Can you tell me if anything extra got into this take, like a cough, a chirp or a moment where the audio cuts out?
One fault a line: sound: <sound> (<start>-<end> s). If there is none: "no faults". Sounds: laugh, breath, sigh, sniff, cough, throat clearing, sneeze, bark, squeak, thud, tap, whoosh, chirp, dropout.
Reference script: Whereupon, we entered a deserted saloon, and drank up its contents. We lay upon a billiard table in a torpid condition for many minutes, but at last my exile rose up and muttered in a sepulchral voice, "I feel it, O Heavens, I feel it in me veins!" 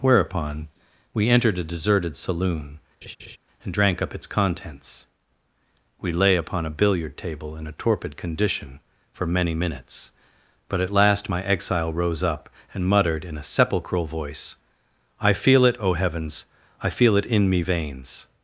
sound: laugh (3.0-3.4 s)